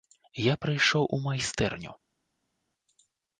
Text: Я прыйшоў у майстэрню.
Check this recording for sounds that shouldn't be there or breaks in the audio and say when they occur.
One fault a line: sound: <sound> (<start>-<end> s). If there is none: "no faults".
no faults